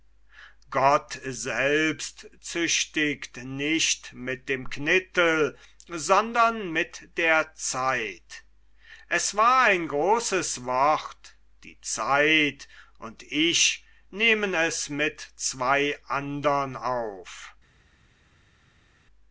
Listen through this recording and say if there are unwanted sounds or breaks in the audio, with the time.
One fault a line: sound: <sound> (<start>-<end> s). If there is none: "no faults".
no faults